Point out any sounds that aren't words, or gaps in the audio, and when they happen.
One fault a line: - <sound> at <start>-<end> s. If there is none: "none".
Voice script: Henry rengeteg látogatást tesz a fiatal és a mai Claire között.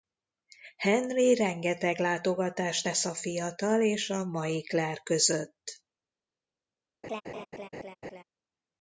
- laugh at 7.0-8.2 s